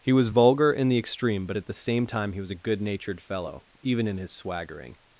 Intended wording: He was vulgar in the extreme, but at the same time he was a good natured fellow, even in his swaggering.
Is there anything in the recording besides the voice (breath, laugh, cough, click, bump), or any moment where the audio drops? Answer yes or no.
no